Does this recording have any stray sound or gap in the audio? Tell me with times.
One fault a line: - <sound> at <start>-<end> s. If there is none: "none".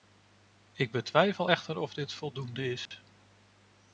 - dropout at 2.9-2.9 s